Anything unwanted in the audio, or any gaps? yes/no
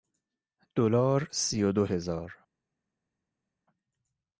no